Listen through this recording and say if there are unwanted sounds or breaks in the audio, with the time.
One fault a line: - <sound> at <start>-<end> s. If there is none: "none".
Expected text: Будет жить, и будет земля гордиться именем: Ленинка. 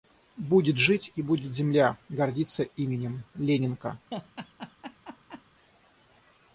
- laugh at 4.1-5.4 s